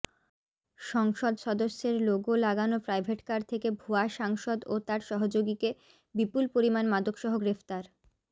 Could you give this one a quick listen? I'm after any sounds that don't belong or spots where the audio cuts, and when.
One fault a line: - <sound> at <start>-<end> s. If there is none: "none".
none